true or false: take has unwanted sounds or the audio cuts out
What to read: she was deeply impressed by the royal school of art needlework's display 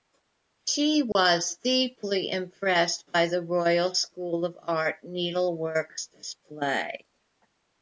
true